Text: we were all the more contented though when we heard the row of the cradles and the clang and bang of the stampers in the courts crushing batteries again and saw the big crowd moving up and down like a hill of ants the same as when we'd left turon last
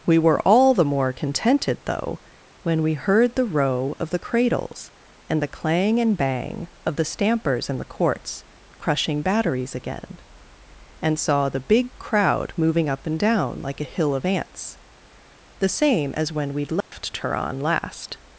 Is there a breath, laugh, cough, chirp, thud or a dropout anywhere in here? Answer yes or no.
yes